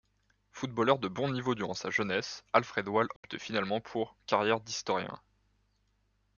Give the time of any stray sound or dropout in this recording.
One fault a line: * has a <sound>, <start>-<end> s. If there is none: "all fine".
* has a dropout, 3.2-3.2 s